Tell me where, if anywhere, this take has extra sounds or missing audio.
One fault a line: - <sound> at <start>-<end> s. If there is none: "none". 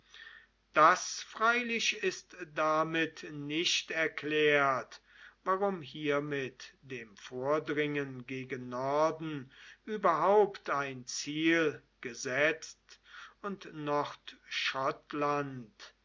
none